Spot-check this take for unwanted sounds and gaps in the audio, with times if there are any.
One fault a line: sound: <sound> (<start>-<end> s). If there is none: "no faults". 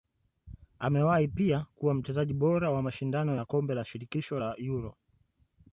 no faults